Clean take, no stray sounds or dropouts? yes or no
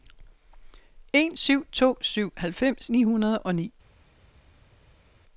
yes